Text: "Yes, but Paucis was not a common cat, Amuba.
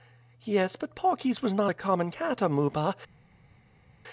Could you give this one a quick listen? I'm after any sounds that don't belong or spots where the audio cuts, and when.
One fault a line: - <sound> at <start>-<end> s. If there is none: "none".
none